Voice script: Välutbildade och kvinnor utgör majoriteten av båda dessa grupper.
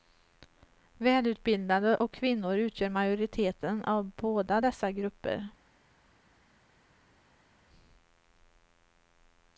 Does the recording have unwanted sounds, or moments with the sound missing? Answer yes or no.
no